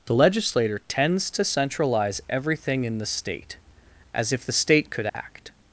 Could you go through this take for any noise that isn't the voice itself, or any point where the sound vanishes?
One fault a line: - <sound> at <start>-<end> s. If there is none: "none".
- dropout at 5.1-5.1 s